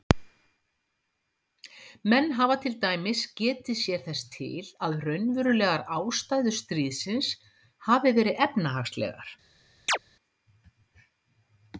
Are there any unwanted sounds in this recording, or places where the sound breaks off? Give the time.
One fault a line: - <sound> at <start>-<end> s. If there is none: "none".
- chirp at 9.9-10.0 s